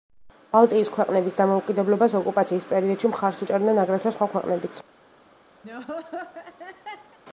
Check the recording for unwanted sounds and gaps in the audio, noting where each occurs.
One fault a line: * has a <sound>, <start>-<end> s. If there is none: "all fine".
* has a laugh, 5.6-7.2 s